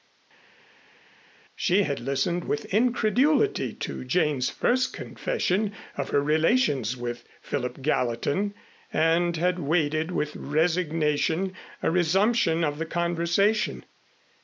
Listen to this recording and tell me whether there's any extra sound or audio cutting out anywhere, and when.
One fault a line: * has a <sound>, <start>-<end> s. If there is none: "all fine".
all fine